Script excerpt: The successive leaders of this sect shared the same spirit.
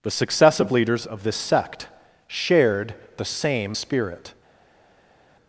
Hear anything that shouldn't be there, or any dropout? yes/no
no